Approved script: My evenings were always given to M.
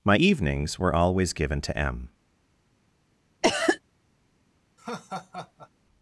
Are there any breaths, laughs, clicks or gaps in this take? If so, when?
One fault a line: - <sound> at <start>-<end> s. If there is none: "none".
- cough at 3.4-3.8 s
- laugh at 4.8-5.7 s